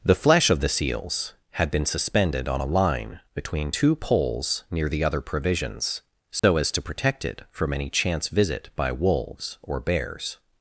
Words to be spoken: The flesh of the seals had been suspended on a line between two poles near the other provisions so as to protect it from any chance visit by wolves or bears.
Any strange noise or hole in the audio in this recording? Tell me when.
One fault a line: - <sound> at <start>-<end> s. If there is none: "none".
- dropout at 6.4-6.4 s